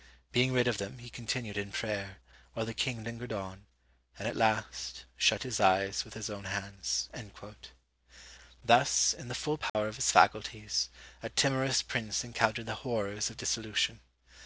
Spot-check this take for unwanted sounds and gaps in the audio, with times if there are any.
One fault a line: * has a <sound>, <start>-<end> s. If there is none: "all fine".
* has a dropout, 9.7-9.7 s